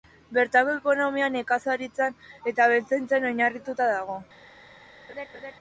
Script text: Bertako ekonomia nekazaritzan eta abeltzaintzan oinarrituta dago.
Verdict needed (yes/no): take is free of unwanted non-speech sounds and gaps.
no